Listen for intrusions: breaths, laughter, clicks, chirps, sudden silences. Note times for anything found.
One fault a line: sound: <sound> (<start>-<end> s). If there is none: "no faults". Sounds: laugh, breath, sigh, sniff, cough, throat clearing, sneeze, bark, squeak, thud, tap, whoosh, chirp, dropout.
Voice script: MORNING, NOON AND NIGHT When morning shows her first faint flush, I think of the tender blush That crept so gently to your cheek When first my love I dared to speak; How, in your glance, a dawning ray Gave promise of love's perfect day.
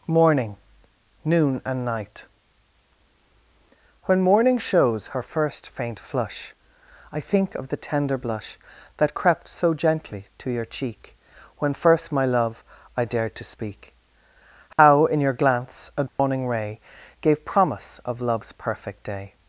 sound: dropout (14.7-14.8 s)
sound: dropout (16.1-16.2 s)